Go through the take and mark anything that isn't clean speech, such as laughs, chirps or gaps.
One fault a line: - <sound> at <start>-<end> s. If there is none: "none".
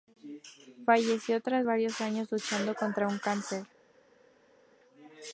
none